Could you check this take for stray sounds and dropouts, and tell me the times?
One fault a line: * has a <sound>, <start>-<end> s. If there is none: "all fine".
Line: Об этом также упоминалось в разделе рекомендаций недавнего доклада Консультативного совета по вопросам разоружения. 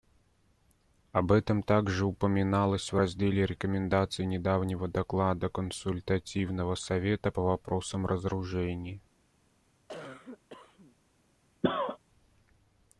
* has a cough, 9.9-11.0 s
* has a cough, 11.6-12.0 s